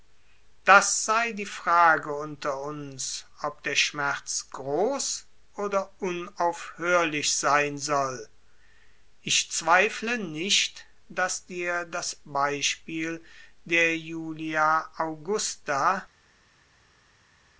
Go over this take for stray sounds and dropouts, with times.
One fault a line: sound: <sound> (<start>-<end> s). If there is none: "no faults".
no faults